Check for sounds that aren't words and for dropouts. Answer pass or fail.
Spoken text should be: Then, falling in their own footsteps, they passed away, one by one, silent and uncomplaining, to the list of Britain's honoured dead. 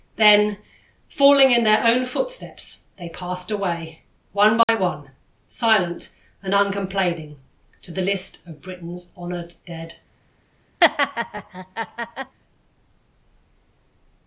fail